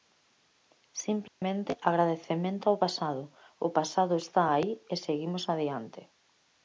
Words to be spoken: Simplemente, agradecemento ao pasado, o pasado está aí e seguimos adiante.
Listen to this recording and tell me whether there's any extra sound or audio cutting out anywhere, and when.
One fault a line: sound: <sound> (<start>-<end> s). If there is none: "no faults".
sound: dropout (1.3-1.4 s)